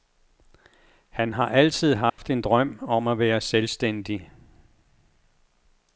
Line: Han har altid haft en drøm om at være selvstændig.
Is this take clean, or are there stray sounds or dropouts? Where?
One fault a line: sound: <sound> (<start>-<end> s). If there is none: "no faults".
sound: dropout (2.1-2.2 s)